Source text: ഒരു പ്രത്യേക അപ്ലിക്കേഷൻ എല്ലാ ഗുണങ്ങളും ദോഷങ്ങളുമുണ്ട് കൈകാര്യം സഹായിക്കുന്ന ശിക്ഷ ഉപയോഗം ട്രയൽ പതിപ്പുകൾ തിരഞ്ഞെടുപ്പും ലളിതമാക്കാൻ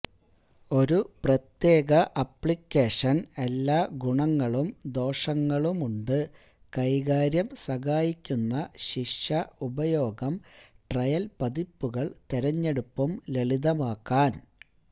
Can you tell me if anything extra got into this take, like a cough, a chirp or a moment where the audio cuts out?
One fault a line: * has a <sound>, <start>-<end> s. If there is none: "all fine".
all fine